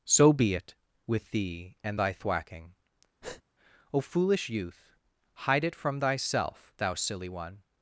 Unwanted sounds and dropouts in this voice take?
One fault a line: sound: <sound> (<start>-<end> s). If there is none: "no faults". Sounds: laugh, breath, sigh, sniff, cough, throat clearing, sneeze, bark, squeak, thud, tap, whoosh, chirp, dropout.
sound: breath (3.2-3.4 s)